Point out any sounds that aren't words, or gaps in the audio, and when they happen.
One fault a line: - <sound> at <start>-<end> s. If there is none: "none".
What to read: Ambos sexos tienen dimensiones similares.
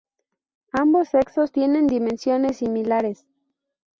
none